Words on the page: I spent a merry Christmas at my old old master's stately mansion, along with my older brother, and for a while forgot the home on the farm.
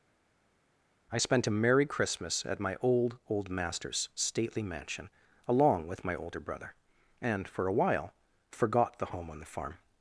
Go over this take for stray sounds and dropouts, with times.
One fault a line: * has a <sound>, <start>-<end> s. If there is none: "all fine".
all fine